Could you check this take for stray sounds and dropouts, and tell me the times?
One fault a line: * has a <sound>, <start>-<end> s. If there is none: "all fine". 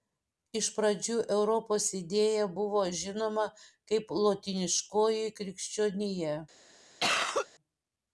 * has a cough, 7.0-7.5 s